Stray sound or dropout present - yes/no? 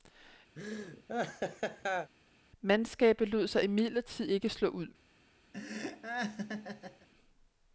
yes